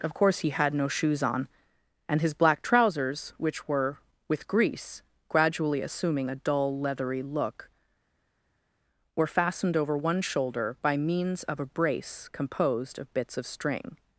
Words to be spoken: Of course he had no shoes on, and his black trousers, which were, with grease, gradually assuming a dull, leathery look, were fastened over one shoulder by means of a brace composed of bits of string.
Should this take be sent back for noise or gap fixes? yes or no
no